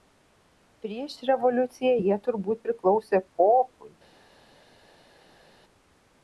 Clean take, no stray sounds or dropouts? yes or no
yes